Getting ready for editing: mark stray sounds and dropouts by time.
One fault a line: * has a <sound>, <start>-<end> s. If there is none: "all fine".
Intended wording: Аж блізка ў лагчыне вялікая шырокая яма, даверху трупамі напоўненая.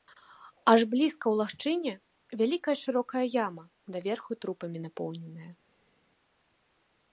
all fine